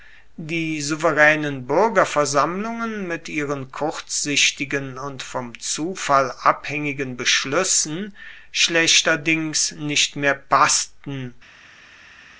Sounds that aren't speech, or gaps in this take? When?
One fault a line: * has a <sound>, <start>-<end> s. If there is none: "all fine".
all fine